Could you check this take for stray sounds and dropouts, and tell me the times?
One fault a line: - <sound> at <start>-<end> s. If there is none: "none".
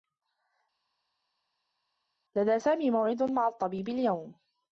none